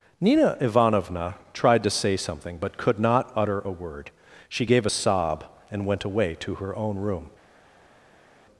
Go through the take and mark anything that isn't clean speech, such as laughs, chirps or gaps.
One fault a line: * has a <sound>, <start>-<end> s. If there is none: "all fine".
all fine